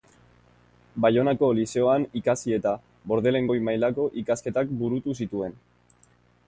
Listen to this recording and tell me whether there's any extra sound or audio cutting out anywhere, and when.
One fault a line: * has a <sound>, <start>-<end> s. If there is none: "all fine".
all fine